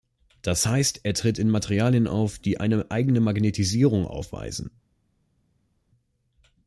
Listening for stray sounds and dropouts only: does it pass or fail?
pass